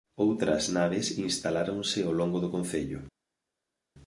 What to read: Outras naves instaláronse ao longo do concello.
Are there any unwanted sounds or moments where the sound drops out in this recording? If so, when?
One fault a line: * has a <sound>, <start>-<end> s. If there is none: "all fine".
all fine